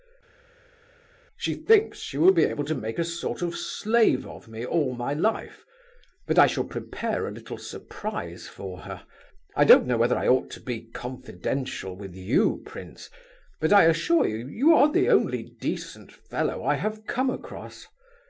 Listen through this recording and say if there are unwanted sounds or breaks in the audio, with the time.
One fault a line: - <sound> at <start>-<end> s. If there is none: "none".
none